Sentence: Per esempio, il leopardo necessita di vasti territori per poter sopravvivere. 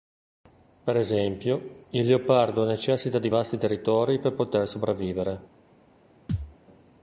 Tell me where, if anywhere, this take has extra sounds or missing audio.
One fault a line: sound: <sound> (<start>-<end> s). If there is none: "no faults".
sound: thud (6.3-6.6 s)